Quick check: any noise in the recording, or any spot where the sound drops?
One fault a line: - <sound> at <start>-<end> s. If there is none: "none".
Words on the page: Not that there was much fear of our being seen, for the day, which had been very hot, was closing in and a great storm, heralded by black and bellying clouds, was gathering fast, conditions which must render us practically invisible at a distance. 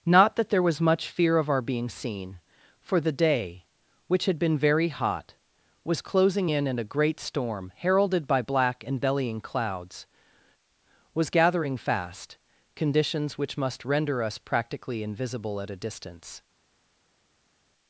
none